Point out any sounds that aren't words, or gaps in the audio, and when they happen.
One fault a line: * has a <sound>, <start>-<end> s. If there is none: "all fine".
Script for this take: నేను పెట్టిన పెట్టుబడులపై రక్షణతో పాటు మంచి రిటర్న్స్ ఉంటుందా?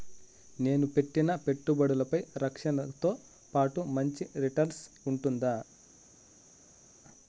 all fine